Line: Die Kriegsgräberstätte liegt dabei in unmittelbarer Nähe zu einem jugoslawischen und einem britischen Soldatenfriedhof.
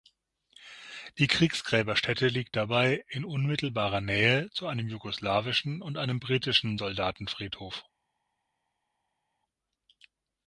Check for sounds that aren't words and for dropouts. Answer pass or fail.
pass